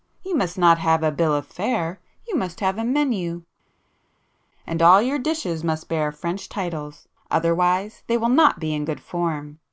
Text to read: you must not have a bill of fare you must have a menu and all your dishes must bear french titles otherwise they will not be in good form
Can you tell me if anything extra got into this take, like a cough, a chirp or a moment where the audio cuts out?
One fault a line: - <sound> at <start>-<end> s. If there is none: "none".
none